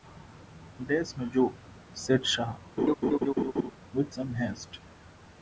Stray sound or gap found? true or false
true